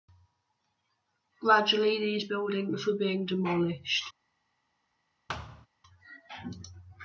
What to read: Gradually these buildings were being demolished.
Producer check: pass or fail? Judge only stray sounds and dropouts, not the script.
fail